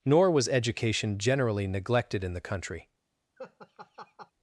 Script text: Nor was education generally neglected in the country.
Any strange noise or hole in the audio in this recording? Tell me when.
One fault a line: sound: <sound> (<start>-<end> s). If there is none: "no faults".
sound: laugh (3.4-4.3 s)